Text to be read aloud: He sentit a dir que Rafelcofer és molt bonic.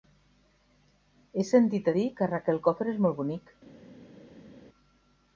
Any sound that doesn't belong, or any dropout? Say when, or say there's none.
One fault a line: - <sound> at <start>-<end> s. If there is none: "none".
none